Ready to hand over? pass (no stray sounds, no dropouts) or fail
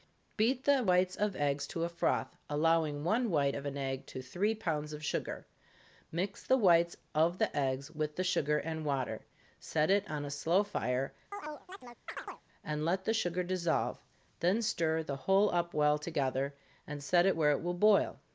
fail